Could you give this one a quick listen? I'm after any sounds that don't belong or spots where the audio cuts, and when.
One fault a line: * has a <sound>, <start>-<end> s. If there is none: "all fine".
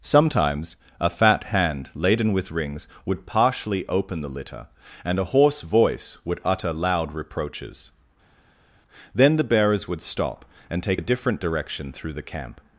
all fine